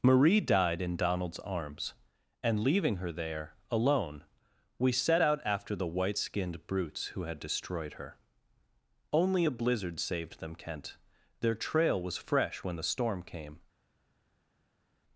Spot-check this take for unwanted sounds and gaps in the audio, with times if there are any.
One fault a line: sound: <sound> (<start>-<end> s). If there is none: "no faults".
no faults